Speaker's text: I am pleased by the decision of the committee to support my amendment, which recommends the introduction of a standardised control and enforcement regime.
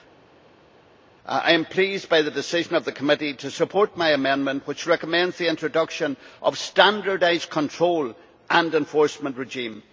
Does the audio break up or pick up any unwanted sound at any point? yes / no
no